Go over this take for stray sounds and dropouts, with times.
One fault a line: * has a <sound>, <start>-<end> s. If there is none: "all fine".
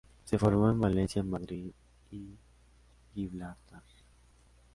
all fine